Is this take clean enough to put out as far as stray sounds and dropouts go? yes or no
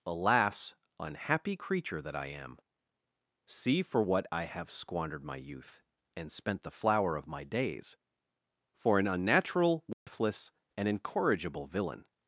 no